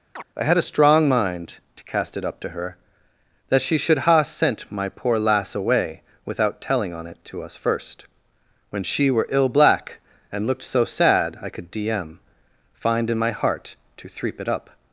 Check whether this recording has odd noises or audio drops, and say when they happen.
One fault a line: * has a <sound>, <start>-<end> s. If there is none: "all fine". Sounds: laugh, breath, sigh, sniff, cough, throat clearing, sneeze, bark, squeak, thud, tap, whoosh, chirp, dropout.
* has a chirp, 0.2-0.2 s